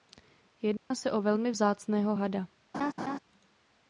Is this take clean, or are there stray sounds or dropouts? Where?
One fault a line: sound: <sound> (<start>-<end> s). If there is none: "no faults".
sound: dropout (0.8-0.9 s)
sound: laugh (2.7-3.2 s)